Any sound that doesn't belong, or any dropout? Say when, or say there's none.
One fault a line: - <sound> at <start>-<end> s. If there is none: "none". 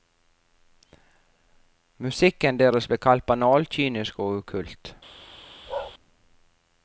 - bark at 5.7-5.9 s